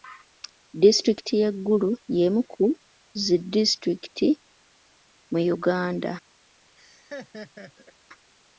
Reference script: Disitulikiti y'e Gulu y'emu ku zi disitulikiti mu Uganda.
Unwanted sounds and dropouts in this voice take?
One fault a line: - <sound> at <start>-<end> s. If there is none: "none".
- laugh at 6.8-7.9 s